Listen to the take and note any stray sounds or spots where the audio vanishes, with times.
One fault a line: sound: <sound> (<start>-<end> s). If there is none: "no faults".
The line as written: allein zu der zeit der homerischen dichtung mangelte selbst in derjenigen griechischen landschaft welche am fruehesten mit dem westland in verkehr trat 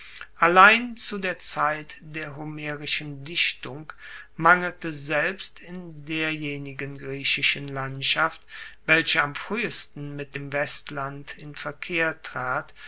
no faults